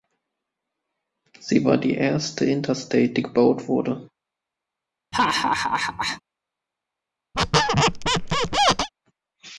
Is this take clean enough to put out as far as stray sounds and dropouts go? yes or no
no